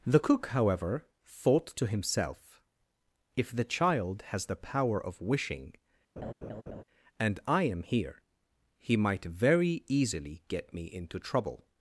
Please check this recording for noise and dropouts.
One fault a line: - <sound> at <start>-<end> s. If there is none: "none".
- laugh at 6.2-6.8 s